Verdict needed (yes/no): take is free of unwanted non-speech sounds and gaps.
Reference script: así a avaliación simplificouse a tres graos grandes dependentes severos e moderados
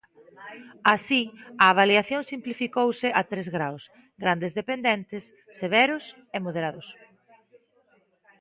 yes